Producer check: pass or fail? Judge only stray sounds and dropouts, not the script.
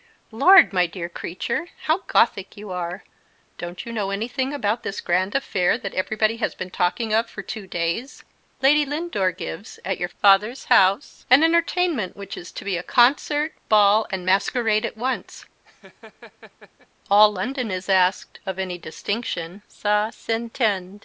fail